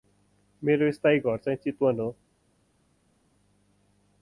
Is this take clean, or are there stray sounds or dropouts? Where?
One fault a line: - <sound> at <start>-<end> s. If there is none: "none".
none